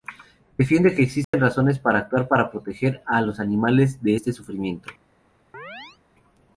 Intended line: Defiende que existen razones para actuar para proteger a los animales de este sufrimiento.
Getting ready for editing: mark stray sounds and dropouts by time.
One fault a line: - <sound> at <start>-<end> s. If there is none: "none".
- dropout at 1.2-1.3 s
- chirp at 5.5-6.0 s